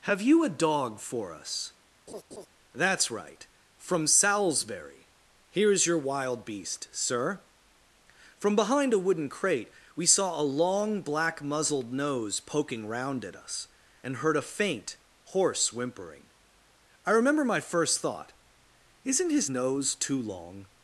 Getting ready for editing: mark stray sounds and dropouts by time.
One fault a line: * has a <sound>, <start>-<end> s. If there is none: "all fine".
* has a laugh, 2.1-2.5 s